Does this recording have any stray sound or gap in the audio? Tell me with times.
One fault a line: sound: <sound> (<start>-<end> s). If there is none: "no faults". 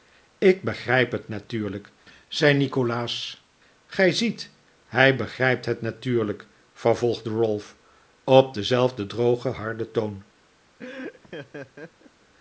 sound: laugh (10.8-12.1 s)